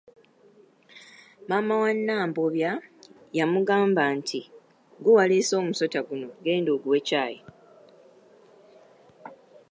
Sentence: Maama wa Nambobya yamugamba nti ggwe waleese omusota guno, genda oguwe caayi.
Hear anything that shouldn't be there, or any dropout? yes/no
no